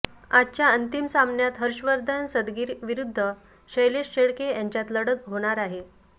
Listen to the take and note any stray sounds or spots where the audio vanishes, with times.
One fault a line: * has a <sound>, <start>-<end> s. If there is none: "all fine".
all fine